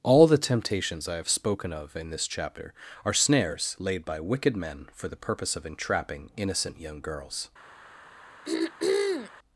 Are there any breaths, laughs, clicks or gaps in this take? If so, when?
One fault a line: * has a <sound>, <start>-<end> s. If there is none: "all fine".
* has a throat clearing, 8.5-9.3 s